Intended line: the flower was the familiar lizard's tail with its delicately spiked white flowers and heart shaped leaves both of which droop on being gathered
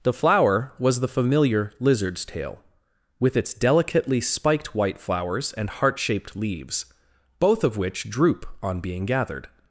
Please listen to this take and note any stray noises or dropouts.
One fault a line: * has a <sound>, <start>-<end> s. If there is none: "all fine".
all fine